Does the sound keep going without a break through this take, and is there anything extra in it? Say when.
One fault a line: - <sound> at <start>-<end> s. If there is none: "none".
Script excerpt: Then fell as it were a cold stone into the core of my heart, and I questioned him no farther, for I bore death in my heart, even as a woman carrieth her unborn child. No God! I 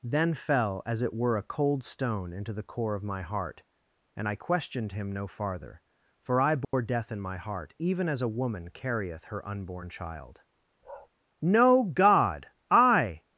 - dropout at 6.6-6.7 s
- bark at 10.8-11.1 s